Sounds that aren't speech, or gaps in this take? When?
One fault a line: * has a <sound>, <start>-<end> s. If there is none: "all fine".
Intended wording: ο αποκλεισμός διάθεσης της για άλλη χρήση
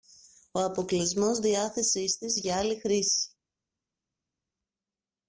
all fine